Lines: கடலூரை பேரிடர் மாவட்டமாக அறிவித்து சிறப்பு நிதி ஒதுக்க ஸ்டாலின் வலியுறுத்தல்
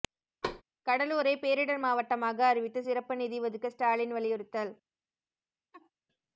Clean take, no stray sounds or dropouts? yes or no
no